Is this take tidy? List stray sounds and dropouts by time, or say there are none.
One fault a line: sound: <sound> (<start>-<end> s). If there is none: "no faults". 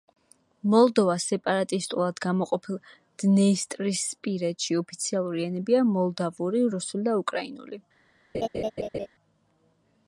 sound: laugh (8.3-9.1 s)